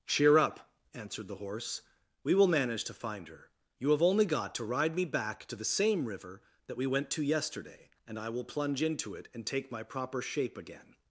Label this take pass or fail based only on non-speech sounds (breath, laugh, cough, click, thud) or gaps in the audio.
pass